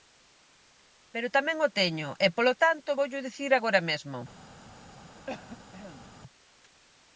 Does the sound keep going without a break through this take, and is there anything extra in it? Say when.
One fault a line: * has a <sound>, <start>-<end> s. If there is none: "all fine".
* has a cough, 5.3-6.1 s